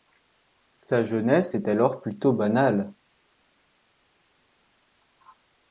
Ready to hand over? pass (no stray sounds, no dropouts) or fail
pass